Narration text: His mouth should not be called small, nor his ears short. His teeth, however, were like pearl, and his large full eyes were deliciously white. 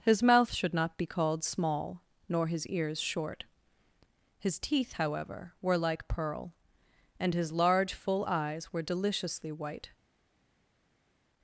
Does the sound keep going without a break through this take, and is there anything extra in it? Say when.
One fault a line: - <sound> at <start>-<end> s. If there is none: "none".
none